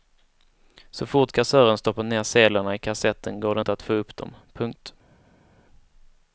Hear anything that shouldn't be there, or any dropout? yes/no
no